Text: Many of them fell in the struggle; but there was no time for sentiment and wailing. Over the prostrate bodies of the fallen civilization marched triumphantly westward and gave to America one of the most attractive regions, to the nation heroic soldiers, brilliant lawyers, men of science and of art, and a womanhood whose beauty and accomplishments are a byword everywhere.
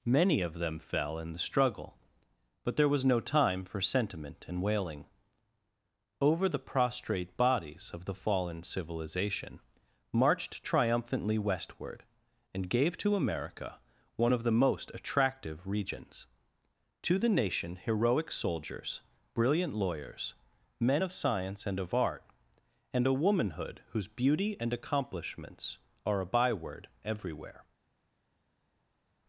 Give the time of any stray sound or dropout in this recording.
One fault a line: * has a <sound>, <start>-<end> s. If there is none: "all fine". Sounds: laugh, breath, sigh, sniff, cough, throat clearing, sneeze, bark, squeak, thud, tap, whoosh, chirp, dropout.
all fine